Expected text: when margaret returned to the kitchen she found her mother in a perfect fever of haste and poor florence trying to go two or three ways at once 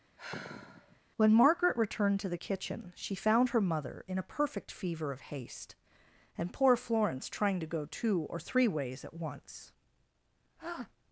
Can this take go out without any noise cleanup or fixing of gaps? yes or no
no